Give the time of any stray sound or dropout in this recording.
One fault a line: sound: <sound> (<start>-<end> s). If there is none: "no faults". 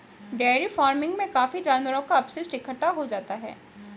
no faults